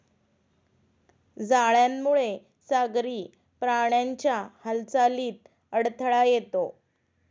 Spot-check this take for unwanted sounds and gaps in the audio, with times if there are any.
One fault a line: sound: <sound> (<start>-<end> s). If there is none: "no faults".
no faults